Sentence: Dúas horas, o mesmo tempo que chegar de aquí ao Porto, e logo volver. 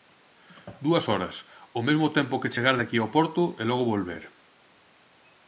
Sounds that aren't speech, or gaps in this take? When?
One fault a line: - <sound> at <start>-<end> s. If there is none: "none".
none